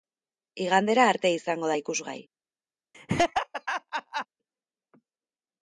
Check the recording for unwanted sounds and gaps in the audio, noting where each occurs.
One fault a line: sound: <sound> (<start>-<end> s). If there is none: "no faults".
sound: laugh (2.9-4.3 s)